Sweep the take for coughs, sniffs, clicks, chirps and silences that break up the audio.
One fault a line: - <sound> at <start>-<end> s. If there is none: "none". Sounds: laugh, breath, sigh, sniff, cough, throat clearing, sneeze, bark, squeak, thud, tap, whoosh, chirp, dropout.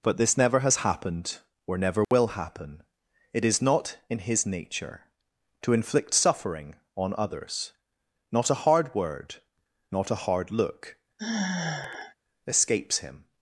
- dropout at 2.0-2.1 s
- sigh at 11.2-12.2 s